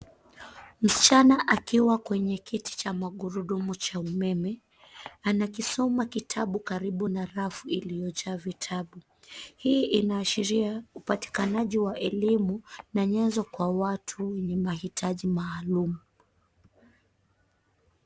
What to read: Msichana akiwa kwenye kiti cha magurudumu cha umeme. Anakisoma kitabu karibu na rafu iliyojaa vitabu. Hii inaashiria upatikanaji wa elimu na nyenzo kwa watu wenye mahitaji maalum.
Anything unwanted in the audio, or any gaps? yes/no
no